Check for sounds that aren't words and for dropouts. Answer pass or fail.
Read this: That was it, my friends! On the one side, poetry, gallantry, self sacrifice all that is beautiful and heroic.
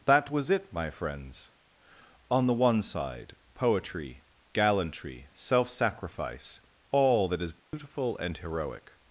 fail